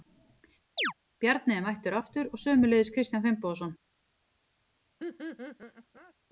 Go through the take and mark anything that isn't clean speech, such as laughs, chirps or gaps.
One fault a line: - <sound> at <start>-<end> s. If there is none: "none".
- chirp at 0.8-0.9 s
- laugh at 5.0-6.1 s